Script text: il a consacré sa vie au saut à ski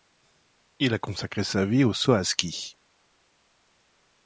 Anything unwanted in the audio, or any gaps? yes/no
no